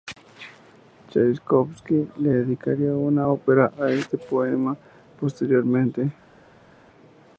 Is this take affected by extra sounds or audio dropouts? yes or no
no